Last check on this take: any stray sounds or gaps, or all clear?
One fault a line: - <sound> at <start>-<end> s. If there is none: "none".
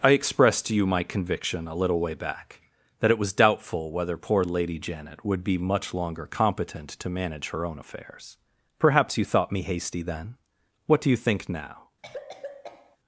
- cough at 12.0-13.0 s